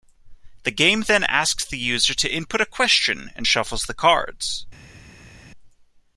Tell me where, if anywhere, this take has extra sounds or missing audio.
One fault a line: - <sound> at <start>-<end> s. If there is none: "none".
none